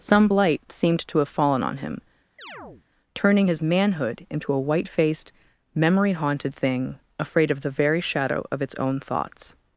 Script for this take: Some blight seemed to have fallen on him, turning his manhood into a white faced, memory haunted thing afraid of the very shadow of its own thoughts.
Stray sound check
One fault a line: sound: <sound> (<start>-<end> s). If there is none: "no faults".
sound: chirp (2.4-2.9 s)